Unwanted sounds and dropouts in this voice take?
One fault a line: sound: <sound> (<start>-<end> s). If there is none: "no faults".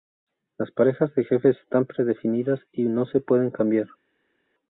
no faults